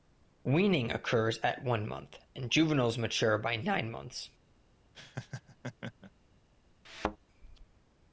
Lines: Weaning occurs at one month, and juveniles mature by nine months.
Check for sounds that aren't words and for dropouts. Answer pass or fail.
fail